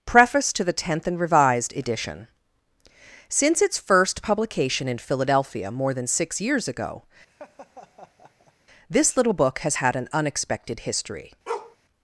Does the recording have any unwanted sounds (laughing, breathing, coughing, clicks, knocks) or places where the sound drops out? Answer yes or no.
yes